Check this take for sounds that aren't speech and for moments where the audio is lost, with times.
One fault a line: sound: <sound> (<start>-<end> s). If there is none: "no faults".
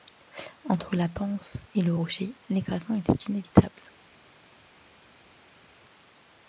no faults